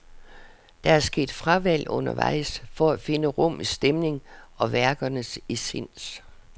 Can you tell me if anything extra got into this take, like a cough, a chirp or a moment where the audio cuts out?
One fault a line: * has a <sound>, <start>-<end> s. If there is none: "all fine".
all fine